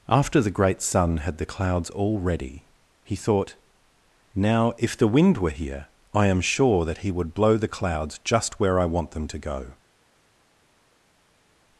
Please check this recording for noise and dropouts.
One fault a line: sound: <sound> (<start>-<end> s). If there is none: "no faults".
no faults